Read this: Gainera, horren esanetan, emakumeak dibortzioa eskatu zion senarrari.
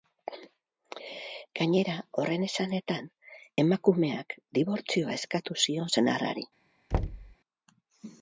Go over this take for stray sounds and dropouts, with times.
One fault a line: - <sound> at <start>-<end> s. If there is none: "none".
- thud at 6.9-7.4 s